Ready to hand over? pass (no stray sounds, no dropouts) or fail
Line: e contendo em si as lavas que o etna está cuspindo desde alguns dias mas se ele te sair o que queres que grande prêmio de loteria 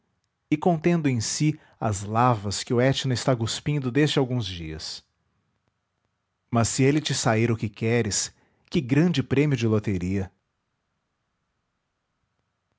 pass